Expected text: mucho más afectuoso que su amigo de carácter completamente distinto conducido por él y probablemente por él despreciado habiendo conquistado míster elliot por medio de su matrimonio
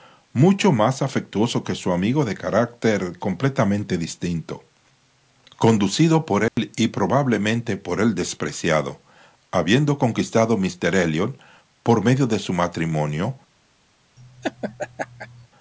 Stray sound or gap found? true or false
true